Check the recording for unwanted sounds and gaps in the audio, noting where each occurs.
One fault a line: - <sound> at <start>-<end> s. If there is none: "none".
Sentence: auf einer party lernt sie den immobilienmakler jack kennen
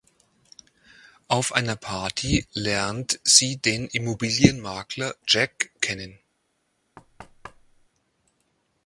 - thud at 7.0-7.9 s